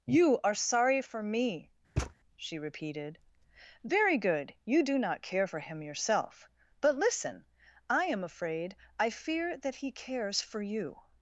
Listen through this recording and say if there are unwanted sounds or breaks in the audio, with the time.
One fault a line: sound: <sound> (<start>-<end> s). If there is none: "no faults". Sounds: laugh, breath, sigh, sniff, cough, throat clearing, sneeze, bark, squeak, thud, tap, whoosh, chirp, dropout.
sound: thud (2.0-2.1 s)